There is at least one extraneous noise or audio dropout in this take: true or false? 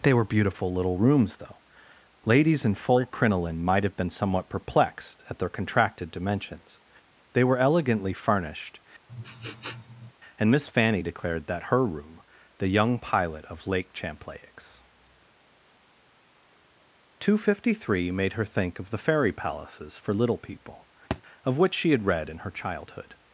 true